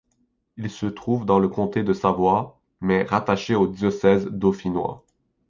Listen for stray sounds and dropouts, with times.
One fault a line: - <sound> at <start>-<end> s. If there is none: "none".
none